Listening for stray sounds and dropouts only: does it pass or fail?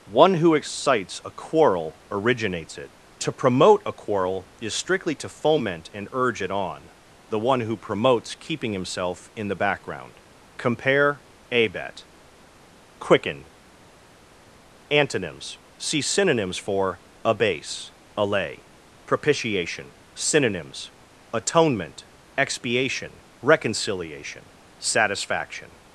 pass